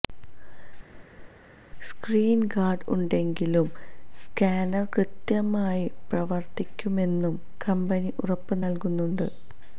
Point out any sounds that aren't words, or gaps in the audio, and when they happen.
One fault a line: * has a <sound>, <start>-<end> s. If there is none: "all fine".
* has a laugh, 0.9-1.3 s